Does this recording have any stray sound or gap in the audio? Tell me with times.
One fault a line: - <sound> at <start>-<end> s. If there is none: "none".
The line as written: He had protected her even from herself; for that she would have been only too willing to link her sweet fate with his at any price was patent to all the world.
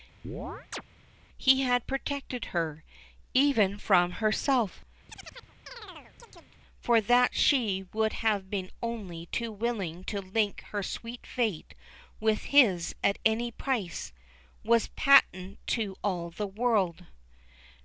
- chirp at 0.2-0.8 s
- chirp at 5.1-6.6 s